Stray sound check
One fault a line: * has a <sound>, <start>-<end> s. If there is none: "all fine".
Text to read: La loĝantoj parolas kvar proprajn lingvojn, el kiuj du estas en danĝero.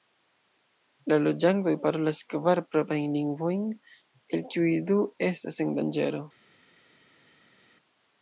all fine